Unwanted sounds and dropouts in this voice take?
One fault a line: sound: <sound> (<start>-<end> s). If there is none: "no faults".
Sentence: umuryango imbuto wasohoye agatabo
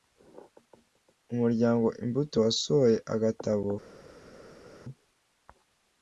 no faults